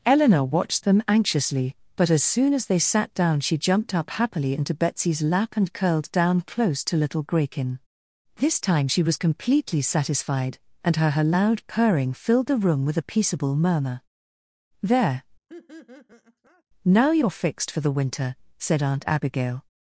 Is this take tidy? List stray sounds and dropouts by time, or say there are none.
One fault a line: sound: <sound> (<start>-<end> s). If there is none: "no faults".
sound: laugh (15.5-16.6 s)